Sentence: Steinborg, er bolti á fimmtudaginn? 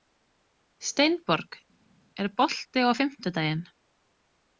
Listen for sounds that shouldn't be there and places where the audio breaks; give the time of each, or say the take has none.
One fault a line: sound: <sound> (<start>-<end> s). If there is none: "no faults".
no faults